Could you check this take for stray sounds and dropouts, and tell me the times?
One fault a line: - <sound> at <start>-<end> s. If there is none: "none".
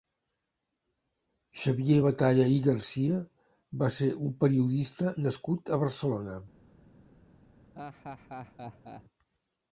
- laugh at 7.8-9.0 s